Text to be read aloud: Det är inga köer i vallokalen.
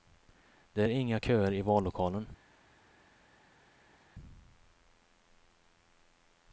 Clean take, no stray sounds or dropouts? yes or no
yes